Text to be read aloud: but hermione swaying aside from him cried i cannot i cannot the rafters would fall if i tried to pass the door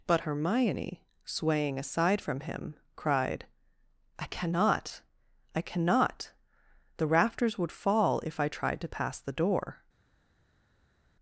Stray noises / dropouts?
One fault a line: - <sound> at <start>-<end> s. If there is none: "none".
none